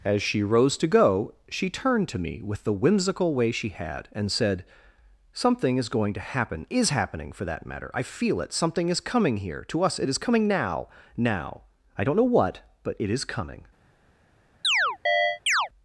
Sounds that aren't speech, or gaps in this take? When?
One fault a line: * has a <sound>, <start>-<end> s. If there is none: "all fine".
* has a chirp, 14.6-15.7 s